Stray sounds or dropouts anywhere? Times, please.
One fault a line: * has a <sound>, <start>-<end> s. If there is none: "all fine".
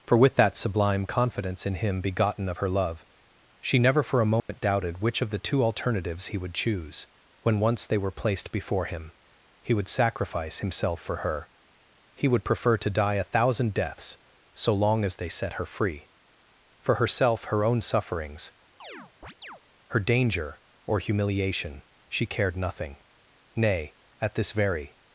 * has a dropout, 4.4-4.5 s
* has a chirp, 18.8-19.6 s